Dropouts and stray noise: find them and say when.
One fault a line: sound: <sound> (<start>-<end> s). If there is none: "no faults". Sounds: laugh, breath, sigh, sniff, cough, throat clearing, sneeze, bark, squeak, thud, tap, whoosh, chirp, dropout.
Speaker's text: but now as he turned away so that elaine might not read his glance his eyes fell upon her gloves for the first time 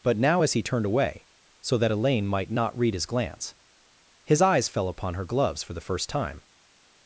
no faults